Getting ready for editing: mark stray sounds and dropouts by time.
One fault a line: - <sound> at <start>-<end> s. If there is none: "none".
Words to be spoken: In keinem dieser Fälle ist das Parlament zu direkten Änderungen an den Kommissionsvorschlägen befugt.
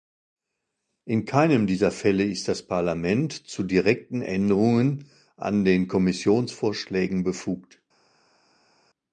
none